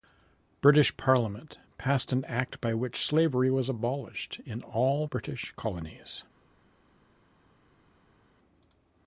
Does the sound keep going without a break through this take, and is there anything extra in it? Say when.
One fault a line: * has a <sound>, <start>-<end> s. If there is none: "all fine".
all fine